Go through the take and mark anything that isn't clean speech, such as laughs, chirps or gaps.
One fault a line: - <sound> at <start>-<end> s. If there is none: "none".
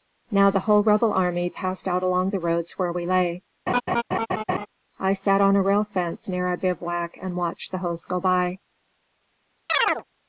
- laugh at 3.7-4.7 s
- chirp at 9.7-10.0 s